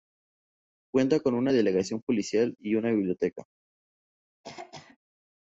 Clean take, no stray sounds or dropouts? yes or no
no